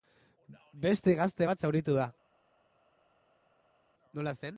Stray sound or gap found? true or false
false